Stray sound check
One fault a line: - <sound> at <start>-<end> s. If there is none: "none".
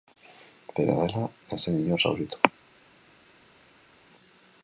none